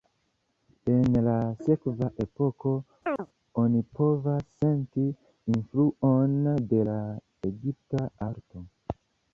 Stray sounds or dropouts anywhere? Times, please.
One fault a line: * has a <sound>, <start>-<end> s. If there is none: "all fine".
* has a chirp, 3.0-3.3 s